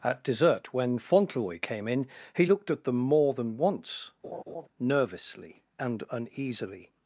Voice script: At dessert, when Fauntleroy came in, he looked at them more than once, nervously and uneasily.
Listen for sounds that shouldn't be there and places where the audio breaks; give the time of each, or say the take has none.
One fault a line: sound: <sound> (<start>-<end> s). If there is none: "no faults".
sound: laugh (4.2-4.7 s)